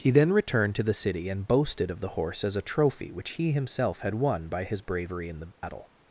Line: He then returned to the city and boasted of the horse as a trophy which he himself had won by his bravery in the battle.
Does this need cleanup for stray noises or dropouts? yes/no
yes